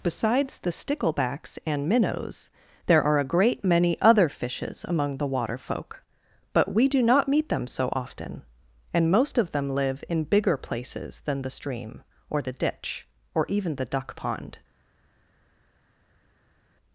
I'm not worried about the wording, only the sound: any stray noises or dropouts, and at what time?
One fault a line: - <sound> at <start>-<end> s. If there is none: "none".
none